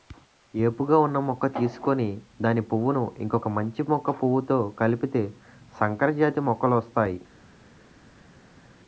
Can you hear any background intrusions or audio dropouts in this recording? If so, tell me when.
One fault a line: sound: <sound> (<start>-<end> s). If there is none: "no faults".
no faults